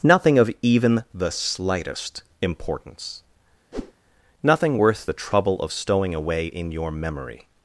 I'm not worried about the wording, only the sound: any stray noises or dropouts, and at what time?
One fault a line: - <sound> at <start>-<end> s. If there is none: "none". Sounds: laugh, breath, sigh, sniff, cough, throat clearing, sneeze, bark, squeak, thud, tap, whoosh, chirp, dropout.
- whoosh at 3.7-3.9 s